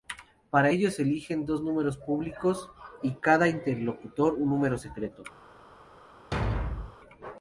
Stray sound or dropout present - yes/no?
yes